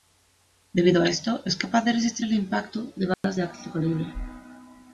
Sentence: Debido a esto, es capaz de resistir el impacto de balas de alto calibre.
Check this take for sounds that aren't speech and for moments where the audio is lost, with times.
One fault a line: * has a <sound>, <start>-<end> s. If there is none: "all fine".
* has a dropout, 3.1-3.2 s